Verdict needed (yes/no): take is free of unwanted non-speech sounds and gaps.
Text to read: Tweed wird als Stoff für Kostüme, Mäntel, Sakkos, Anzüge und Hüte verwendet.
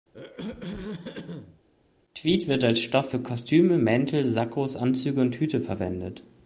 no